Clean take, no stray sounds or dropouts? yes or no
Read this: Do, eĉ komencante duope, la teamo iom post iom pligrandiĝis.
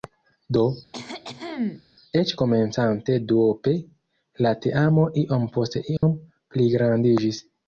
no